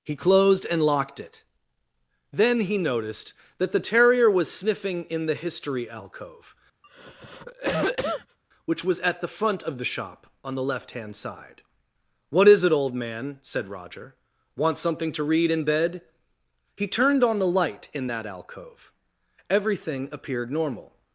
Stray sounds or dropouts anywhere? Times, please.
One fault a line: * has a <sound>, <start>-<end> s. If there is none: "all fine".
* has a cough, 6.8-8.4 s